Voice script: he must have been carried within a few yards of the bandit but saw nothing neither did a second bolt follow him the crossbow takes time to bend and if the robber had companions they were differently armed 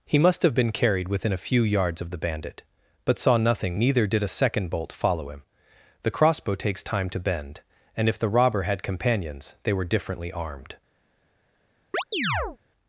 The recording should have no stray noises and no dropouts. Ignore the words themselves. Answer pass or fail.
fail